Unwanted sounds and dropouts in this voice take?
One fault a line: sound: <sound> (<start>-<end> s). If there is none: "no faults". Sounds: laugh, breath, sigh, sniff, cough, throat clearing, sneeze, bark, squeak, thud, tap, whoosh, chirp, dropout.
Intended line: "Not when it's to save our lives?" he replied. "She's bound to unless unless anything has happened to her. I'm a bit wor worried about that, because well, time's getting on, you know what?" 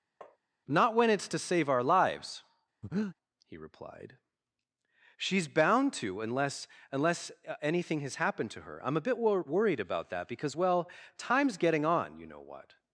sound: tap (0.2-0.4 s)
sound: breath (2.8-3.2 s)